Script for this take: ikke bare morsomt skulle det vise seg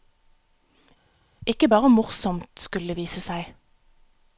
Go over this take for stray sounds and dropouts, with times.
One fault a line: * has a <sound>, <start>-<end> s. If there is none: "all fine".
all fine